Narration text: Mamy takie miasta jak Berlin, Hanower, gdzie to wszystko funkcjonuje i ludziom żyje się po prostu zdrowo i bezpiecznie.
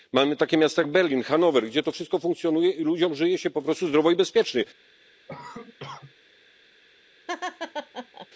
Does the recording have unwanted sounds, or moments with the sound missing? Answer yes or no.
yes